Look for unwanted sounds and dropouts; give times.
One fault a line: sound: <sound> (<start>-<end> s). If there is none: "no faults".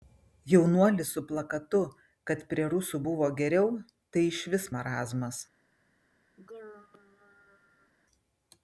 sound: throat clearing (6.4-7.9 s)